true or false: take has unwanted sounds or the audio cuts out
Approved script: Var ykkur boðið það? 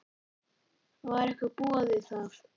false